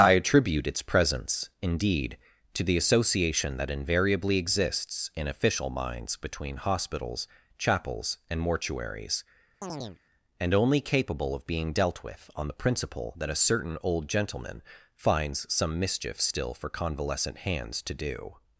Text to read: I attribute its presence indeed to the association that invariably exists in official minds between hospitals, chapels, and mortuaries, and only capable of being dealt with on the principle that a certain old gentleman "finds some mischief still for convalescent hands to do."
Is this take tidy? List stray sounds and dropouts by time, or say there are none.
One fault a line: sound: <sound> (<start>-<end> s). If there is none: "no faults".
sound: chirp (9.6-10.0 s)